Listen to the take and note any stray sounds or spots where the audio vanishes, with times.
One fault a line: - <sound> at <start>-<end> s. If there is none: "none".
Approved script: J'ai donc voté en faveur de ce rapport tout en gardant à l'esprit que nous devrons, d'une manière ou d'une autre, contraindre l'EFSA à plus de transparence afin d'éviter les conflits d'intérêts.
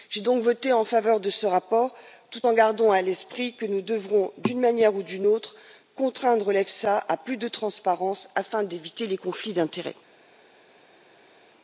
none